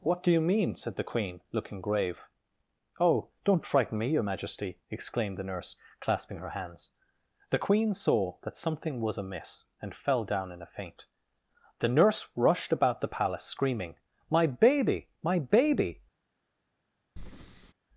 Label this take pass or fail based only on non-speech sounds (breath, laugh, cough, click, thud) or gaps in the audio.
fail